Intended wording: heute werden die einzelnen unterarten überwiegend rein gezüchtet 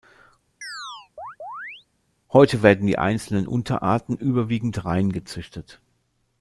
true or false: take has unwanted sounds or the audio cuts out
true